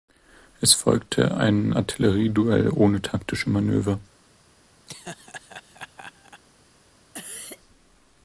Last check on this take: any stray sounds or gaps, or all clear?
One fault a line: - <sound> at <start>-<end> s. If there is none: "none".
- laugh at 4.9-6.4 s
- cough at 7.1-7.6 s